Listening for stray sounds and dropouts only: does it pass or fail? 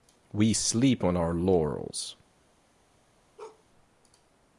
fail